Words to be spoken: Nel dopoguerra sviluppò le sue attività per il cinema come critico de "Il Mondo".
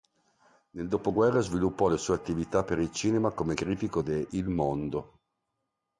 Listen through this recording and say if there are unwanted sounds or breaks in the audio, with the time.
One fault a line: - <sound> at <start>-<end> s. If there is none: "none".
none